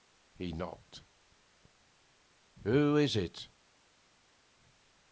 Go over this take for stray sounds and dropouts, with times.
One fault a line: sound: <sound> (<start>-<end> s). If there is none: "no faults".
no faults